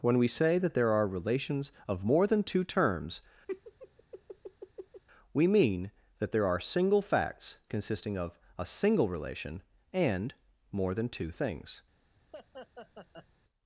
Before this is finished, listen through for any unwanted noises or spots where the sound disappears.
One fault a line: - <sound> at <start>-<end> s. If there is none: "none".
- laugh at 3.5-5.0 s
- laugh at 12.3-13.3 s